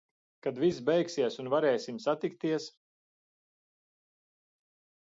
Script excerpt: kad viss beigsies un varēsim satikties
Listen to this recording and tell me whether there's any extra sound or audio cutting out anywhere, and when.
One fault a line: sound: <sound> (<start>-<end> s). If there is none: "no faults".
no faults